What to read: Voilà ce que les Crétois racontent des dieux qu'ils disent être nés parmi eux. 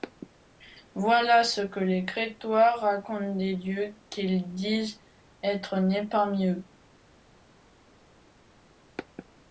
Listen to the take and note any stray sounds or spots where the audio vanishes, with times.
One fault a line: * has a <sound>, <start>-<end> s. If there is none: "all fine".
all fine